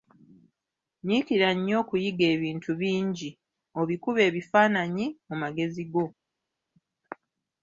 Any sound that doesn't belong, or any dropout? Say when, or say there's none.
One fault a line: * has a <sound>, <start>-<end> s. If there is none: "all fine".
all fine